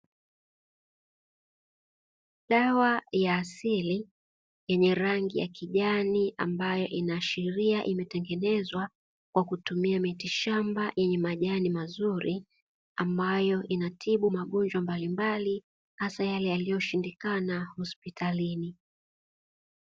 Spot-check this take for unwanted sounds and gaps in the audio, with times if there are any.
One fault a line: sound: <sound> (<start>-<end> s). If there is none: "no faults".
no faults